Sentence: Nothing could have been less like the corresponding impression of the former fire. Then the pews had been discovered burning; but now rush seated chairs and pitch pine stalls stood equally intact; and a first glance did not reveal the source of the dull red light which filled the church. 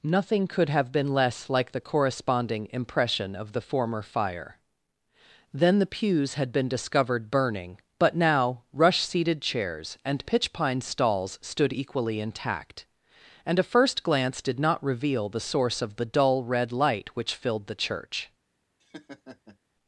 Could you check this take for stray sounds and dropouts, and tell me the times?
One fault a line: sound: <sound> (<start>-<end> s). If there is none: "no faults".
sound: laugh (18.8-19.6 s)